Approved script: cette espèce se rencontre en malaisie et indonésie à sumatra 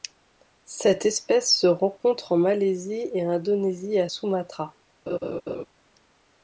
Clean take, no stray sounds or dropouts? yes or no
no